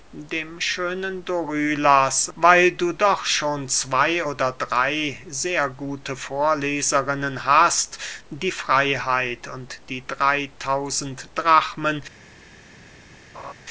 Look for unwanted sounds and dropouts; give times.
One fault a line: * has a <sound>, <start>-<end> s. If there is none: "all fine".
* has a laugh, 13.3-13.5 s